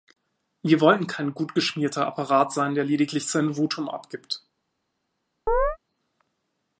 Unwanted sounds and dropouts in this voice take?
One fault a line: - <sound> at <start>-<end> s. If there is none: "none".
- chirp at 5.5-5.8 s